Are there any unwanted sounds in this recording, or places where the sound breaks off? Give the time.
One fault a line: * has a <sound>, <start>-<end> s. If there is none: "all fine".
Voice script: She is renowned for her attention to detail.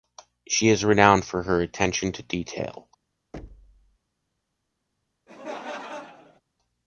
* has a thud, 3.3-4.0 s
* has a laugh, 5.3-6.4 s